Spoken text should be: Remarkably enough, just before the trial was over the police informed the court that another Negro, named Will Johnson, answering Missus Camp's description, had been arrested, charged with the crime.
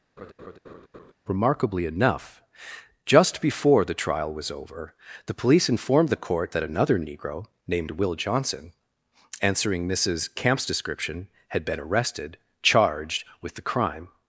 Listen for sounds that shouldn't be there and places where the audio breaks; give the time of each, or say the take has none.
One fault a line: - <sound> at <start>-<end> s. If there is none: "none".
- laugh at 0.2-1.1 s